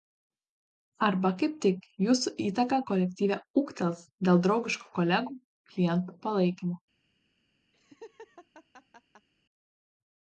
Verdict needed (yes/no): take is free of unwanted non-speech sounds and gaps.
no